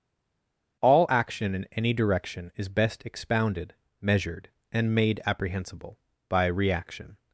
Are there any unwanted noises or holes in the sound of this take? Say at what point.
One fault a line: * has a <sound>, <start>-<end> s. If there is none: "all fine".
all fine